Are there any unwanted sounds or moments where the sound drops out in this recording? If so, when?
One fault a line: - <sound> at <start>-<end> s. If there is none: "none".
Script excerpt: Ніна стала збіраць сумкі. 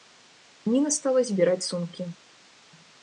none